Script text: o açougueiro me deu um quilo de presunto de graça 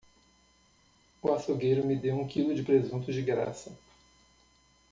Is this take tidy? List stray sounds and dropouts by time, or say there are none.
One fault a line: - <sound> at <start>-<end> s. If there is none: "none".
none